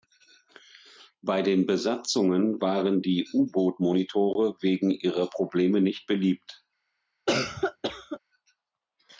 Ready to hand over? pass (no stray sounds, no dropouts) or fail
fail